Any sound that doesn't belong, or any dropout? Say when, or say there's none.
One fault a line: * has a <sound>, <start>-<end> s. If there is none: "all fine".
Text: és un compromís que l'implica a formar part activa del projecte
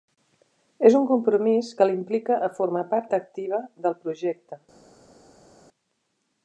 all fine